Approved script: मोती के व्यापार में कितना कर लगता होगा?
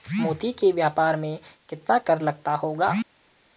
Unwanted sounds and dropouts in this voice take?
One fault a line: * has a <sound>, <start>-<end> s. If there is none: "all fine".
all fine